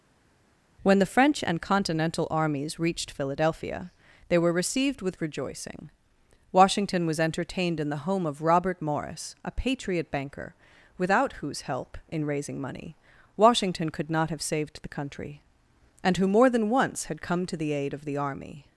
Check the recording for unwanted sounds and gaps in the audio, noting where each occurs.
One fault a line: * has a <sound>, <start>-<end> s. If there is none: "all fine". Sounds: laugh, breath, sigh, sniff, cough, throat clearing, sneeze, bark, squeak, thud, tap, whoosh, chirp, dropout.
all fine